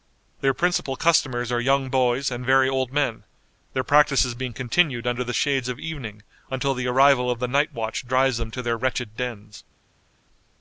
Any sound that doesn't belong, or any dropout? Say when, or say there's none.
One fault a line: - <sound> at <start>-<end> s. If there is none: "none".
none